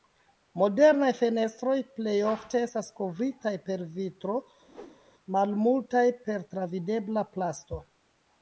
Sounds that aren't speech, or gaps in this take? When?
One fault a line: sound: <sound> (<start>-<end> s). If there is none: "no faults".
sound: whoosh (4.7-5.0 s)